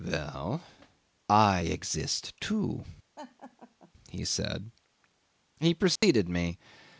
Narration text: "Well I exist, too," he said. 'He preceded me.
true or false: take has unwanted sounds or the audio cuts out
true